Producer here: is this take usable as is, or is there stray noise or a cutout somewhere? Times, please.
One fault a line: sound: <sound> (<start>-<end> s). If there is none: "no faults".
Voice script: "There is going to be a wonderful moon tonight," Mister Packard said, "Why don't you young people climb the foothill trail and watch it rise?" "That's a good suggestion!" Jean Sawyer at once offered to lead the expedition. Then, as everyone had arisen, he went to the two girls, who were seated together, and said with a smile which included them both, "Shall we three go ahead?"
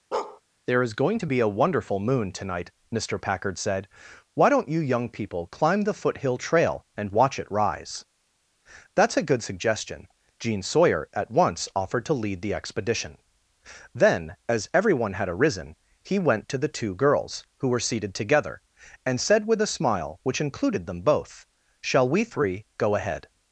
sound: bark (0.1-0.4 s)